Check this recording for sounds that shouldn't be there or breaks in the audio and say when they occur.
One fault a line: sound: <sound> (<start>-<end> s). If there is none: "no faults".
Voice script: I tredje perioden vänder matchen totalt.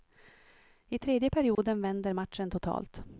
sound: dropout (1.5-1.6 s)